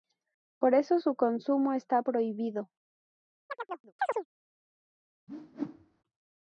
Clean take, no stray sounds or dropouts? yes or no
no